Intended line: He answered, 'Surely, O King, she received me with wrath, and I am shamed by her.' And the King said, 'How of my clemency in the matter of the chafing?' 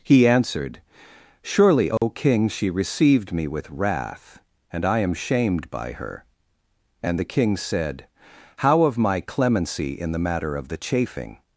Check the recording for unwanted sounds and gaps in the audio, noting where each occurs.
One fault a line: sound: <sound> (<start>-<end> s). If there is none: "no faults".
sound: dropout (2.0-2.0 s)